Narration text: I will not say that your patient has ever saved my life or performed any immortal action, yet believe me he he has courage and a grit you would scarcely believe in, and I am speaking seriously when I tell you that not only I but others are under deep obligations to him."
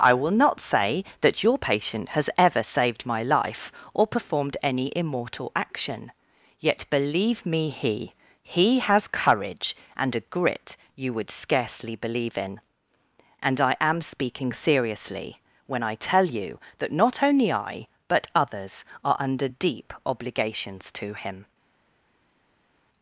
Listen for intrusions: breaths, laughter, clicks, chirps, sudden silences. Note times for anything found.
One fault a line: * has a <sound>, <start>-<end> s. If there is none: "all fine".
all fine